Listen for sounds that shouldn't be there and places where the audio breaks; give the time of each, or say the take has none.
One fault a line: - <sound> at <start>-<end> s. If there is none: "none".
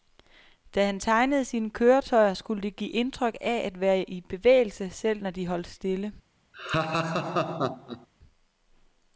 - laugh at 6.5-8.1 s